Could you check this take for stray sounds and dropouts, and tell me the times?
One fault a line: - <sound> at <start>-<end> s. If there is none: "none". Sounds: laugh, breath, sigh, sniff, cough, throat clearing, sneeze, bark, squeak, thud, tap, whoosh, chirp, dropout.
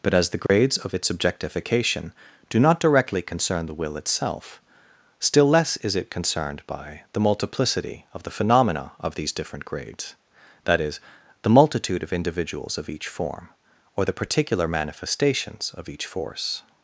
- dropout at 0.5-0.5 s